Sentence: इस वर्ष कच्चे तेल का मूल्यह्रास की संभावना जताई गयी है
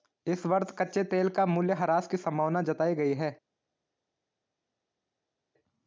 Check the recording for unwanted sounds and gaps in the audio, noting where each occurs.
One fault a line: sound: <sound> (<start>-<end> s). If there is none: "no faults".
no faults